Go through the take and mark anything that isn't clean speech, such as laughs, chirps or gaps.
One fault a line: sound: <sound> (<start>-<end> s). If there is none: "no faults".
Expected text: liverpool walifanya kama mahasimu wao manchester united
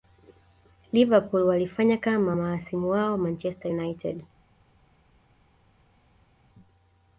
no faults